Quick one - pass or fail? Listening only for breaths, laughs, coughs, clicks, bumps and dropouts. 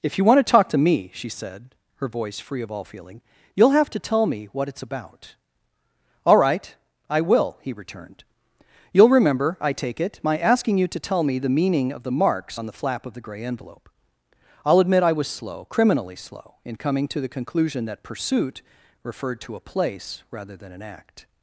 pass